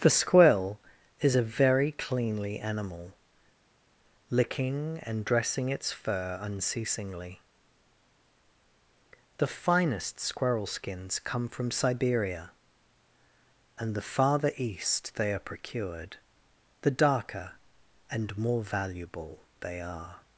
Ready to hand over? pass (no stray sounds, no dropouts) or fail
pass